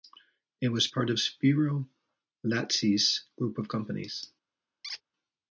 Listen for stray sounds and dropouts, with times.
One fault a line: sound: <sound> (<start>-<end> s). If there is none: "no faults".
sound: squeak (4.8-5.0 s)